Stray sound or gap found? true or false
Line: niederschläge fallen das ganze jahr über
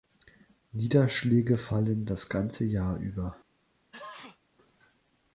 true